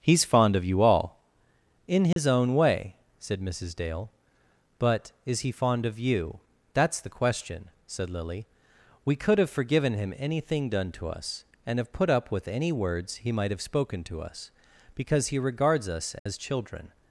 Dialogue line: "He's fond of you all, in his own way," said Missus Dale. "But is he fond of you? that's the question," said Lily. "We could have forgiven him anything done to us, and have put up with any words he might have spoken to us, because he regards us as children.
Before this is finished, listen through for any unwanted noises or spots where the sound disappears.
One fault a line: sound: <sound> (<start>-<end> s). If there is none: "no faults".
sound: dropout (2.1-2.2 s)
sound: dropout (16.2-16.3 s)